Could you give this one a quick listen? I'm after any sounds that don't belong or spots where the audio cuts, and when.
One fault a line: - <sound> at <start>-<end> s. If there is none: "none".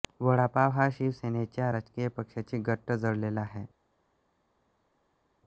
none